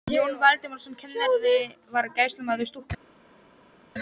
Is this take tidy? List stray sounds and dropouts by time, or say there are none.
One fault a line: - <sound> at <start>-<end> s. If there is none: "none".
none